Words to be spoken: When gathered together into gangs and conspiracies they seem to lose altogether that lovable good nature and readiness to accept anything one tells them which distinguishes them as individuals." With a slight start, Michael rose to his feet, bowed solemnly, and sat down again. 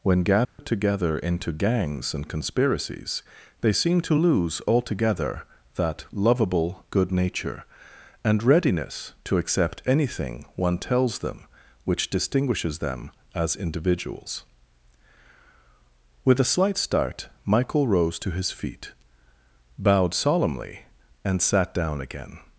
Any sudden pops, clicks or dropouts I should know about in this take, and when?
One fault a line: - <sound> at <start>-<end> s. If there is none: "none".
- dropout at 0.4-0.6 s